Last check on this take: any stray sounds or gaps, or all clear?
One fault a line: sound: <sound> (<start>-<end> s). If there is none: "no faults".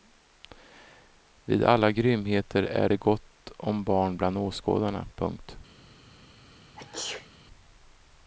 sound: sneeze (6.8-7.3 s)